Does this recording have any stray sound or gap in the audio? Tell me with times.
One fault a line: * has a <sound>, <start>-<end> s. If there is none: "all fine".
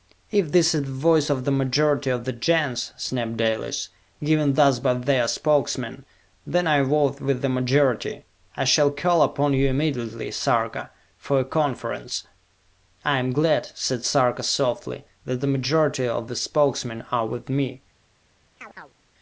* has a chirp, 18.6-19.0 s